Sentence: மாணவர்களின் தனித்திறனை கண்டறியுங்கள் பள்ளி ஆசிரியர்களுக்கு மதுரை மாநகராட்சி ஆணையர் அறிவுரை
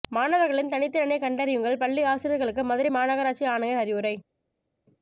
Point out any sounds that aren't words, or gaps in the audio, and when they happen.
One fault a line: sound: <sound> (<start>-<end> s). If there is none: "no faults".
no faults